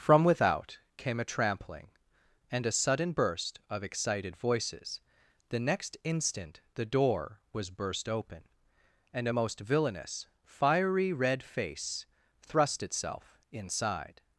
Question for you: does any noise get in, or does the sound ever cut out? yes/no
no